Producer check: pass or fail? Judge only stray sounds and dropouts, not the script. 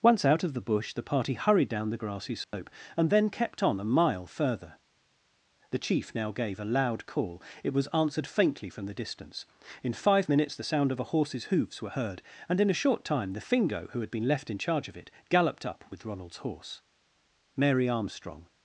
fail